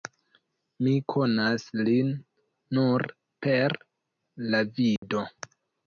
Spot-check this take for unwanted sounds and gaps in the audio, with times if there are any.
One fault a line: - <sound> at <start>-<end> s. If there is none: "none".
- dropout at 5.0-5.0 s